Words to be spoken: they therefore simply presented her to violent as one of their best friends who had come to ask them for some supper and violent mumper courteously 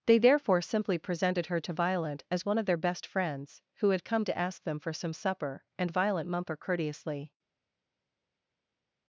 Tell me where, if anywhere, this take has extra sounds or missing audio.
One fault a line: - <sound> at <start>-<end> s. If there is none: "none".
none